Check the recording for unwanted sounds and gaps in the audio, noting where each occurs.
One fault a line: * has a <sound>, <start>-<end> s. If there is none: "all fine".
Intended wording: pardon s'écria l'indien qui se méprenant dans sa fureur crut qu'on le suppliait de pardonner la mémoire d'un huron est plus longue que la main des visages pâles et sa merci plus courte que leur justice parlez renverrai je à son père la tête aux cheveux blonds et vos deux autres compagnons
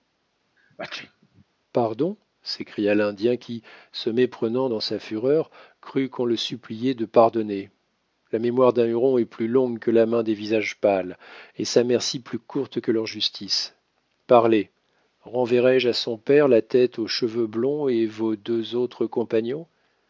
* has a sneeze, 0.6-1.5 s